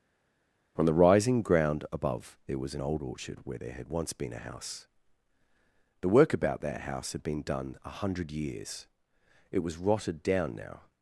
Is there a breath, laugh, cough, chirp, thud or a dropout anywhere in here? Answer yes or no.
no